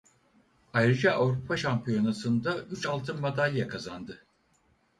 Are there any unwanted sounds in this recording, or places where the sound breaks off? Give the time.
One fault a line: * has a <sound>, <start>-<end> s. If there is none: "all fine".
all fine